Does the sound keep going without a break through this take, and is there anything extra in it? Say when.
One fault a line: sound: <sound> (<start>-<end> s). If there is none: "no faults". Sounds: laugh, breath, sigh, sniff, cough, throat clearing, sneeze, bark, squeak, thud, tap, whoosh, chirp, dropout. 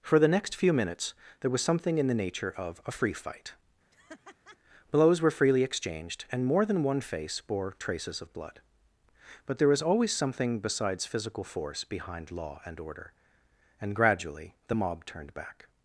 sound: laugh (3.9-4.6 s)